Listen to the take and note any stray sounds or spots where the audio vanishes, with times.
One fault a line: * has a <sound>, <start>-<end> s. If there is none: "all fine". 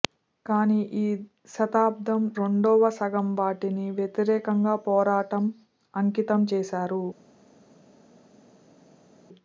all fine